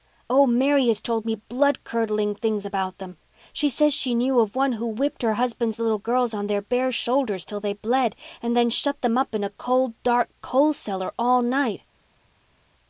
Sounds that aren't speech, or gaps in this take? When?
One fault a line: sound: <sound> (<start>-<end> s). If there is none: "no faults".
no faults